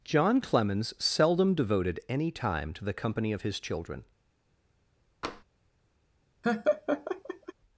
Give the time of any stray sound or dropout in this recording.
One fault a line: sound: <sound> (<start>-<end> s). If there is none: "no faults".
sound: tap (5.2-5.4 s)
sound: laugh (6.4-7.5 s)